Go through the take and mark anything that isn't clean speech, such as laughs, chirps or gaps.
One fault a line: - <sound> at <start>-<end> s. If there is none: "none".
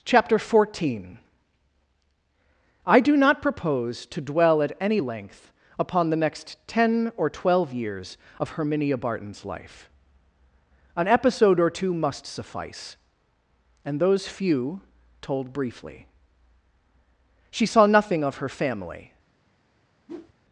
- whoosh at 20.1-20.3 s